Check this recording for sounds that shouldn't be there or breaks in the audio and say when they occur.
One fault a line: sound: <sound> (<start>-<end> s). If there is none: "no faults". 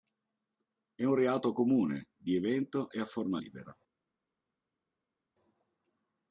no faults